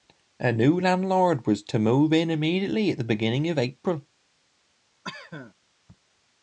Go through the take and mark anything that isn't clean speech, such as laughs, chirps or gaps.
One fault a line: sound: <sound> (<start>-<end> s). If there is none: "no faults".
sound: cough (5.0-5.5 s)